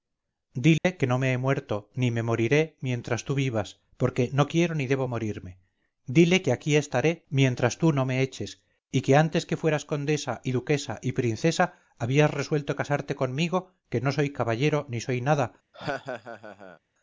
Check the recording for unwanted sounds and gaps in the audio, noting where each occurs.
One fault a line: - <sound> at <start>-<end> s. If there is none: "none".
- dropout at 0.8-0.8 s
- laugh at 15.7-16.8 s